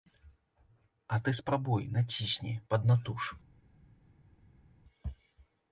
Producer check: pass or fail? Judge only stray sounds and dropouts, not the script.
pass